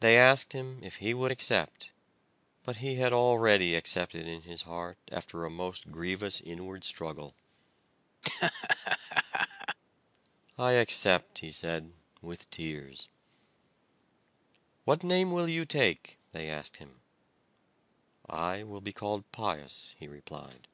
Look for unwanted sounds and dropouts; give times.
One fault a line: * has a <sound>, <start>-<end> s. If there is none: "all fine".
* has a laugh, 8.2-9.8 s